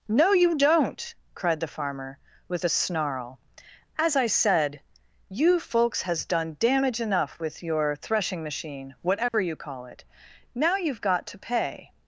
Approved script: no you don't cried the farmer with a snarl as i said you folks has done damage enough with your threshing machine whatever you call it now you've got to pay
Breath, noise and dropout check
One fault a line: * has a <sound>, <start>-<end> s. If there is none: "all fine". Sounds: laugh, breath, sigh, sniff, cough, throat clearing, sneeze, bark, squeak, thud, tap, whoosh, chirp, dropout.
* has a dropout, 9.3-9.3 s